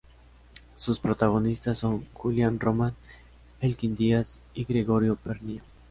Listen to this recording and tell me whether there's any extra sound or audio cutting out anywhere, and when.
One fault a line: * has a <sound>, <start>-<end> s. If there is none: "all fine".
all fine